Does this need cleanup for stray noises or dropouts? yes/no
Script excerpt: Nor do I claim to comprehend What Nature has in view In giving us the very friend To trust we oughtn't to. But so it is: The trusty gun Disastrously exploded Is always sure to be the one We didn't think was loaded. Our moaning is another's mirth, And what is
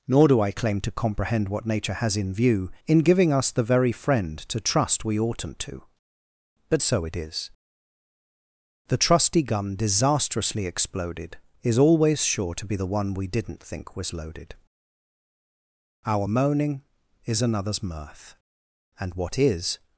no